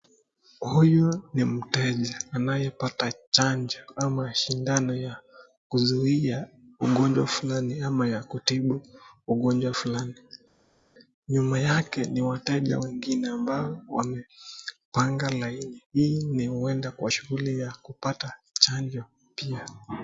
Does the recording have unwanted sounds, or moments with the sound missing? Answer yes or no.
no